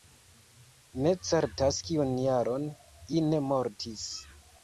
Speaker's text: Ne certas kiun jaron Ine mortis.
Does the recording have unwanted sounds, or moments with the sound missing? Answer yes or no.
no